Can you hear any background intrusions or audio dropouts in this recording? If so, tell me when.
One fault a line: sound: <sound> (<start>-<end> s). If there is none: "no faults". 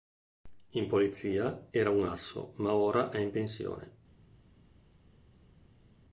no faults